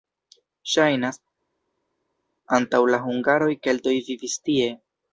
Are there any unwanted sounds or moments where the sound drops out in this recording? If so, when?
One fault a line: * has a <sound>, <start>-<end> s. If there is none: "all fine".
all fine